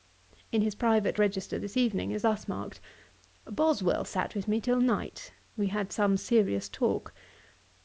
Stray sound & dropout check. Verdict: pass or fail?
pass